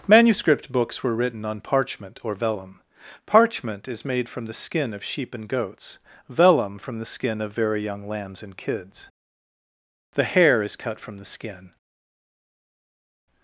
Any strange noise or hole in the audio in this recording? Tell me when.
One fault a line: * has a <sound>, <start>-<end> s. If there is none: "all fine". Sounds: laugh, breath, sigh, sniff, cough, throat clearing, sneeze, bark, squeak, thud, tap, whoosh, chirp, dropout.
all fine